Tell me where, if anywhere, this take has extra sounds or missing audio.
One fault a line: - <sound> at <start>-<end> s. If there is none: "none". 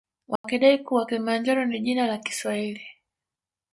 - dropout at 0.4-0.4 s